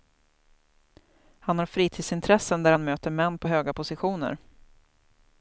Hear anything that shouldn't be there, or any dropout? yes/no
no